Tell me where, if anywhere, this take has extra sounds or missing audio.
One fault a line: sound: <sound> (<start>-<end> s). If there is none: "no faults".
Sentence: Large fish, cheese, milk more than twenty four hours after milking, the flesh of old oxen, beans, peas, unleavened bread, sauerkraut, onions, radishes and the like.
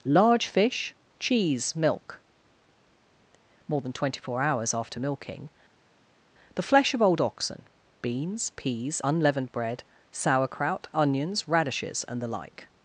no faults